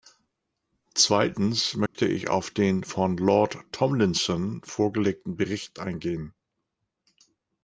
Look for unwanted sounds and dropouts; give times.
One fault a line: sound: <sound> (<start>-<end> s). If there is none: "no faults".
sound: dropout (1.9-1.9 s)